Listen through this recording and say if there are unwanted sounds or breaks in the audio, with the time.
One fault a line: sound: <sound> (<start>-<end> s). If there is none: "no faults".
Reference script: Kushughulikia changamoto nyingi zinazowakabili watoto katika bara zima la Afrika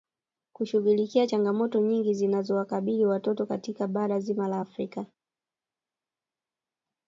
no faults